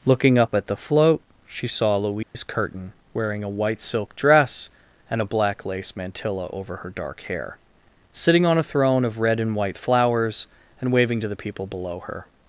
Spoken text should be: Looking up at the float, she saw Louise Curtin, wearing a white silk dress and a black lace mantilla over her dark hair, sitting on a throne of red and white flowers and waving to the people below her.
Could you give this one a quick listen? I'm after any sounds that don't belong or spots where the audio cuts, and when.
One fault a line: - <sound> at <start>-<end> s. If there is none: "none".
- dropout at 2.2-2.4 s